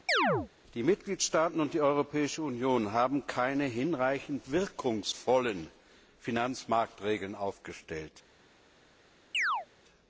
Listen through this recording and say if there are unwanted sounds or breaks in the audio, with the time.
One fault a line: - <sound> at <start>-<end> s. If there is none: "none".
- chirp at 0.1-0.5 s
- chirp at 9.3-9.7 s